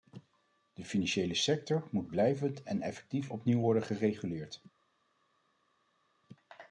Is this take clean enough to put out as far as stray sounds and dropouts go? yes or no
yes